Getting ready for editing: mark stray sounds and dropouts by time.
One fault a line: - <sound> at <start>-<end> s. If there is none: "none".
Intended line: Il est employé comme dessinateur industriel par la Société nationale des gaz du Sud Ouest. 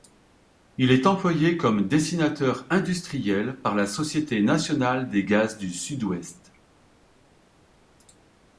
none